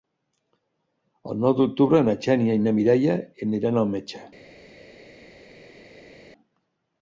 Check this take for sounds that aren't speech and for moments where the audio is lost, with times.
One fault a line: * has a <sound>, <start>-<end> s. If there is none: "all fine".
all fine